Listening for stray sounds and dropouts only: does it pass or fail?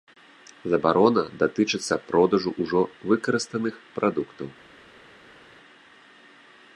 pass